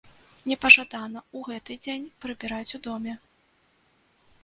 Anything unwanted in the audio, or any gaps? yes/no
no